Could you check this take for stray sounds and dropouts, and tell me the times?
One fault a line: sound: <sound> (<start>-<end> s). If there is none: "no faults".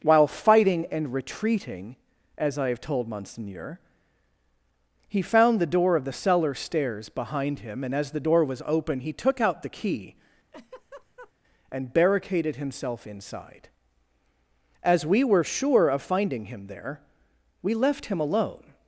sound: laugh (10.5-11.3 s)